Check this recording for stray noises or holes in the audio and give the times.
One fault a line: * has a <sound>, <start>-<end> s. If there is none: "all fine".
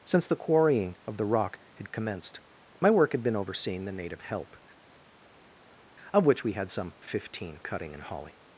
all fine